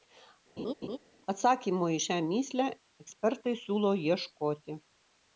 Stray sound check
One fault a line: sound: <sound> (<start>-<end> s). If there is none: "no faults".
sound: laugh (0.6-1.0 s)